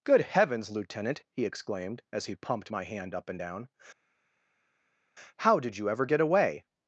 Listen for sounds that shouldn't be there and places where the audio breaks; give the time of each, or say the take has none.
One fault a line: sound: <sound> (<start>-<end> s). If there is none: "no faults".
no faults